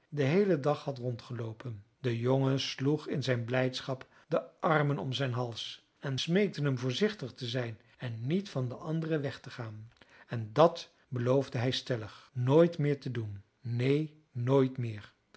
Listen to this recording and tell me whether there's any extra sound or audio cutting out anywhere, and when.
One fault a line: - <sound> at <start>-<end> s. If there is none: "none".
none